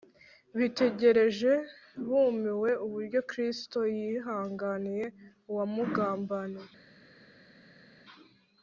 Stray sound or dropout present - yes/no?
no